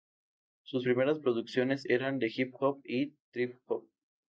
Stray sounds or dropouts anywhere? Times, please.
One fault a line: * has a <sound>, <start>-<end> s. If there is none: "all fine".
all fine